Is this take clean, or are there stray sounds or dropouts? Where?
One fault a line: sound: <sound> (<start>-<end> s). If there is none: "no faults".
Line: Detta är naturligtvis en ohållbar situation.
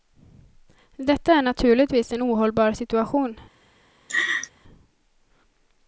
sound: laugh (4.1-4.5 s)